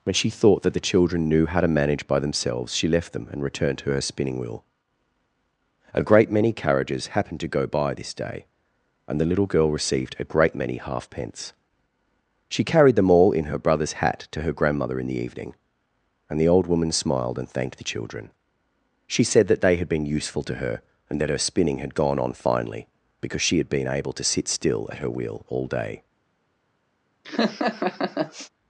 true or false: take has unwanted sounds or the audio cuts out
true